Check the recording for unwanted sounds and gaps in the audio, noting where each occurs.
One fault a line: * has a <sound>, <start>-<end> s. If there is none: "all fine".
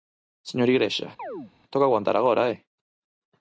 * has a chirp, 1.2-1.5 s